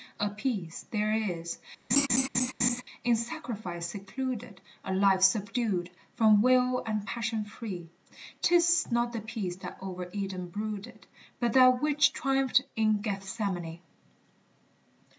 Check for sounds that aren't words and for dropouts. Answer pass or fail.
fail